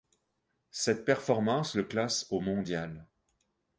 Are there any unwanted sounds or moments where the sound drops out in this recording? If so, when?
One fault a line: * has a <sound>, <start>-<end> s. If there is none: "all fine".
all fine